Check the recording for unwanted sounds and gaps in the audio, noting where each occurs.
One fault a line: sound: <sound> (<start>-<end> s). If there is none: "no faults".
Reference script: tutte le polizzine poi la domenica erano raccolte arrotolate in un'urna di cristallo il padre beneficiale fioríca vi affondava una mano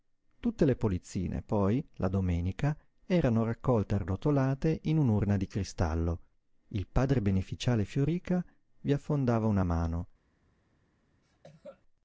sound: cough (11.2-11.8 s)